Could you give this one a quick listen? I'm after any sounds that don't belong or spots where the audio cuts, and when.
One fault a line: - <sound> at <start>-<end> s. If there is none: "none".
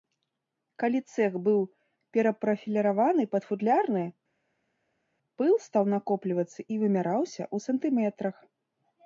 none